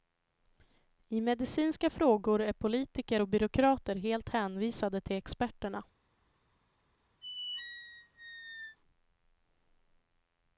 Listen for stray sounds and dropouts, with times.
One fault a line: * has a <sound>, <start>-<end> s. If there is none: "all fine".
* has a squeak, 7.2-8.8 s